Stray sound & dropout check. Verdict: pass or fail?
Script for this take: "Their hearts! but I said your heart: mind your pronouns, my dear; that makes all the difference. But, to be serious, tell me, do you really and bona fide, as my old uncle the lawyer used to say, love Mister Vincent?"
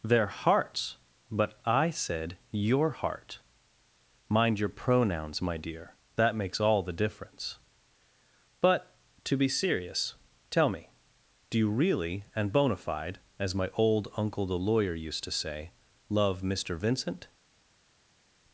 pass